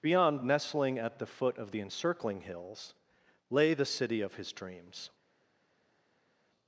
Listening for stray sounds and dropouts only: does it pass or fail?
pass